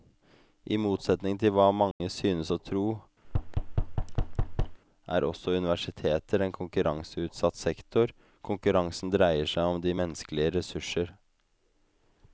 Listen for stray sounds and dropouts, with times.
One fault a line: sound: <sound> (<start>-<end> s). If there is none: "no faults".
sound: dropout (1.9-2.0 s)
sound: thud (3.2-4.8 s)